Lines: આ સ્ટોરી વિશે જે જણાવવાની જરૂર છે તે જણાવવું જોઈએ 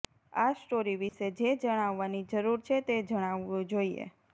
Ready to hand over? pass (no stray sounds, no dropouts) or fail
fail